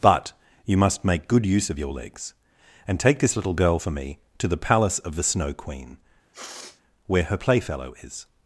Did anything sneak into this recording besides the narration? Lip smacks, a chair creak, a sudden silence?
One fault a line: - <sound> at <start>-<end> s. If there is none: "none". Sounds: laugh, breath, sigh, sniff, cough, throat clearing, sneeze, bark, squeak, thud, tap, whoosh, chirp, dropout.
- sniff at 6.3-6.8 s